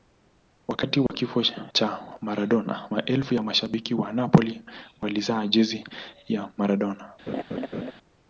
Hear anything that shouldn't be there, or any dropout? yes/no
yes